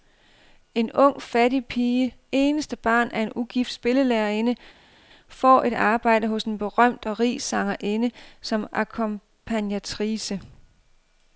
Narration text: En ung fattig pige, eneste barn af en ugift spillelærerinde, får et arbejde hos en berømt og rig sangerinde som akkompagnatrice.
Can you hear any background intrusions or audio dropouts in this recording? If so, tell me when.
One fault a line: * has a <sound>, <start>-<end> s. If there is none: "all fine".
all fine